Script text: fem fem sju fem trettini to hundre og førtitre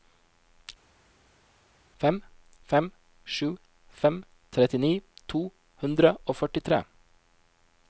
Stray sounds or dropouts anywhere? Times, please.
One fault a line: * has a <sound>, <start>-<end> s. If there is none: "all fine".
all fine